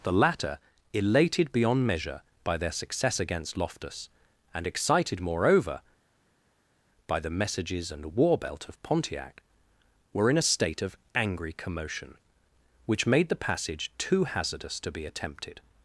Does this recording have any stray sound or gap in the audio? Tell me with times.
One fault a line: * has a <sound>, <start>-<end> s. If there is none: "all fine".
all fine